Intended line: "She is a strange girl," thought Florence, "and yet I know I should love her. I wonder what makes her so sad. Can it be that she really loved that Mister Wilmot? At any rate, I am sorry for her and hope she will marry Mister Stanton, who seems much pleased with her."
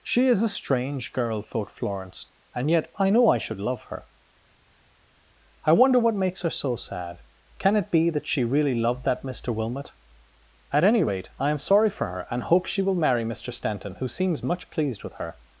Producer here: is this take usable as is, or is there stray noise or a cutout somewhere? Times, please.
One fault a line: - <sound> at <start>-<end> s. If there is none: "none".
none